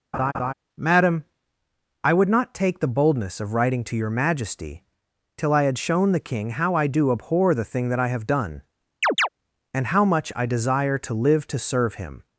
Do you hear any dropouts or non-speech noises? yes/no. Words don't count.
yes